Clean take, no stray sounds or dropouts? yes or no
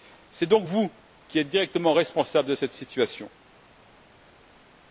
yes